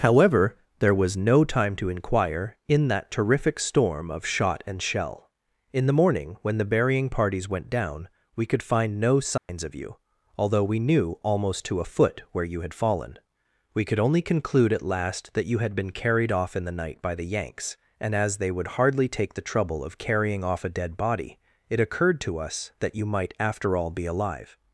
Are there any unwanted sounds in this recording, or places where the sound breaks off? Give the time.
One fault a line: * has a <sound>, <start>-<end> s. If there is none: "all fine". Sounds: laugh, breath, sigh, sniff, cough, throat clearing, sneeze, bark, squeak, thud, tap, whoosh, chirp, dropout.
* has a dropout, 9.4-9.5 s